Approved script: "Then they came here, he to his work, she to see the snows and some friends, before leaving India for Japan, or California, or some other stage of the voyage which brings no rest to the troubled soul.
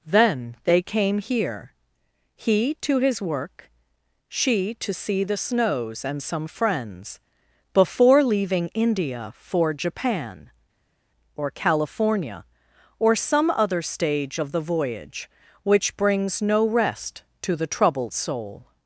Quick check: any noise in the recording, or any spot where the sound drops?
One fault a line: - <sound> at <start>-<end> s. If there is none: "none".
none